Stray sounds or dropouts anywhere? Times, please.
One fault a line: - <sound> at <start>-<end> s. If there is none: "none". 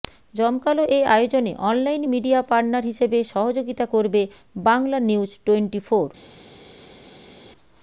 none